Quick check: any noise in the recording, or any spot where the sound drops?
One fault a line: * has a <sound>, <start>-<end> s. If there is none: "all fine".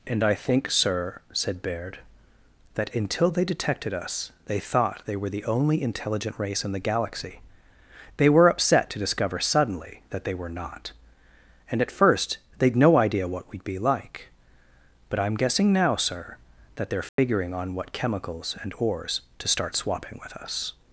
* has a dropout, 17.1-17.2 s